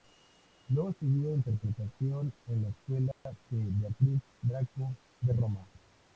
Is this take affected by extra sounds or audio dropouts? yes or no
yes